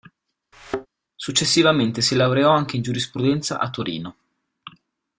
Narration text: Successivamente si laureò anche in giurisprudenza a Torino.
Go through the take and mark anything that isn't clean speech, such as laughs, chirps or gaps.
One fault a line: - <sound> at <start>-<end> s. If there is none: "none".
- thud at 0.5-0.9 s